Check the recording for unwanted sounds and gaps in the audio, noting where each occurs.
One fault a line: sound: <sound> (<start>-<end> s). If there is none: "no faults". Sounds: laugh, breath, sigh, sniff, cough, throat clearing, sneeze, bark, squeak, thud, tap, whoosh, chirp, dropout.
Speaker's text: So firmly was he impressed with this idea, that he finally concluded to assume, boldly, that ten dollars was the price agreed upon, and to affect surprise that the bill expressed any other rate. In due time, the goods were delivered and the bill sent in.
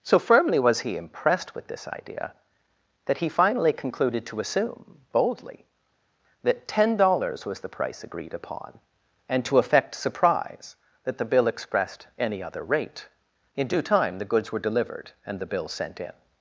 no faults